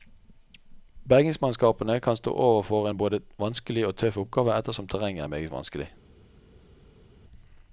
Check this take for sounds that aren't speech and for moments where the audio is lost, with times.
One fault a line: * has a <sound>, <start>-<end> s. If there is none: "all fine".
all fine